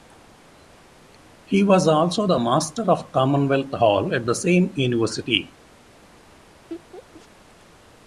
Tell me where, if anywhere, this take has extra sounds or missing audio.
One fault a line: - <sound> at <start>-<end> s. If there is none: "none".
- laugh at 6.7-7.3 s